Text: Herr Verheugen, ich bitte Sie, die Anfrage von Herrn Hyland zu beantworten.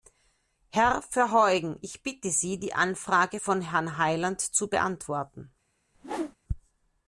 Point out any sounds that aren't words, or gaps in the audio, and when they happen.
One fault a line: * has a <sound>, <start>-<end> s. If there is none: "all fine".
* has a whoosh, 5.9-6.4 s